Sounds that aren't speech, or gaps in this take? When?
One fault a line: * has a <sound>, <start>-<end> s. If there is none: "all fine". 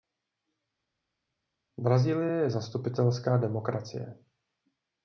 all fine